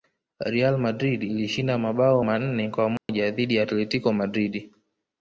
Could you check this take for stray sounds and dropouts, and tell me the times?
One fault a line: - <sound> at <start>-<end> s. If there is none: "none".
- dropout at 3.0-3.1 s